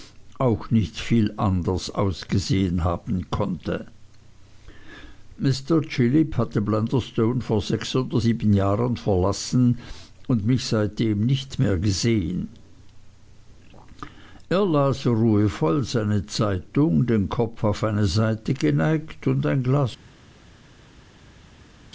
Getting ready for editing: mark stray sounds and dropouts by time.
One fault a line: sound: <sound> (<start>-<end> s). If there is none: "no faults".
no faults